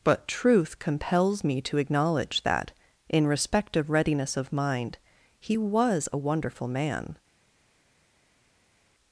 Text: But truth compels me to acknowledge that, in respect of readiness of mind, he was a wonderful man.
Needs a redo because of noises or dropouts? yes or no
no